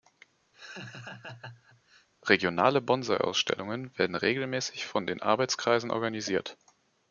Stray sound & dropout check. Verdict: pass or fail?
fail